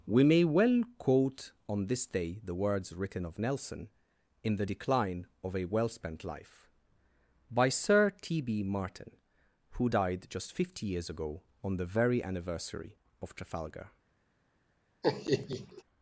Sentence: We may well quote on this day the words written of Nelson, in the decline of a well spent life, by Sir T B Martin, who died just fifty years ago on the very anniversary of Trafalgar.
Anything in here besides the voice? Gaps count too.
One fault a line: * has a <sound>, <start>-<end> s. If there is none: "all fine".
* has a laugh, 15.0-15.8 s